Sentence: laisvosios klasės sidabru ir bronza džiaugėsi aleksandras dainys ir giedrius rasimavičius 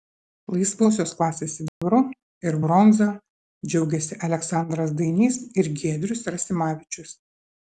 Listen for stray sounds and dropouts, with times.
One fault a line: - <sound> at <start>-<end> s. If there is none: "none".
- dropout at 1.7-1.8 s